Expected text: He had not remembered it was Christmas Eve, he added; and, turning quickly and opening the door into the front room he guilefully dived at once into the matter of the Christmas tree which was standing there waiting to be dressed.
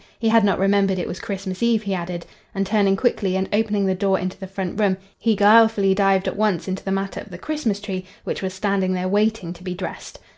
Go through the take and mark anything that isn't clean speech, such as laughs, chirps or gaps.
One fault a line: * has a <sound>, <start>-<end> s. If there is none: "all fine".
all fine